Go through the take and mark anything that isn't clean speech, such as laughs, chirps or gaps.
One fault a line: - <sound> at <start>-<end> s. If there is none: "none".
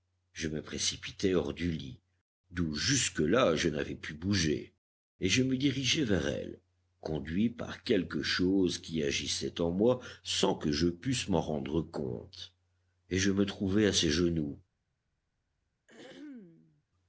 - throat clearing at 15.9-16.8 s